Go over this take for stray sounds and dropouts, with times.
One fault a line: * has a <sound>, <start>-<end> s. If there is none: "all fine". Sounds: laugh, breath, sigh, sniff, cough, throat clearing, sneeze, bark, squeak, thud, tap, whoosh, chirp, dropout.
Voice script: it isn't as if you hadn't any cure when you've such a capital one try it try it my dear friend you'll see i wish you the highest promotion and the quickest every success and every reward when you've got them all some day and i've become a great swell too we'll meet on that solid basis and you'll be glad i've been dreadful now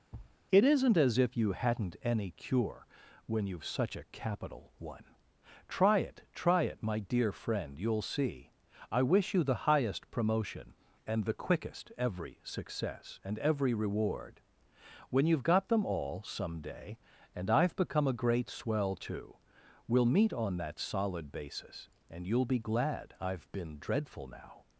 * has a thud, 0.1-0.4 s